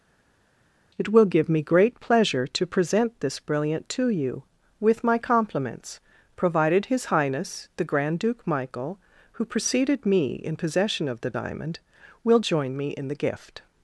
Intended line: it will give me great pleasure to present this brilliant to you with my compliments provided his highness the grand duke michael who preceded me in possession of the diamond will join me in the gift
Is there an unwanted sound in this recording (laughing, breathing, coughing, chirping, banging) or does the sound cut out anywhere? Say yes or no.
no